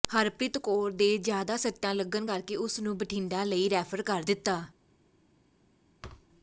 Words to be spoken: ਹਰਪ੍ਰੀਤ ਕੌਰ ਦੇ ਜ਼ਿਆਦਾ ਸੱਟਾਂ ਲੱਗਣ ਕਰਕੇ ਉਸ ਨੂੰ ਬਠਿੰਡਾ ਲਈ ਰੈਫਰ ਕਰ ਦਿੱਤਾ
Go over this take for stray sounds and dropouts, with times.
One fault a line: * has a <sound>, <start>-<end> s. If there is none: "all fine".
* has a thud, 6.0-6.3 s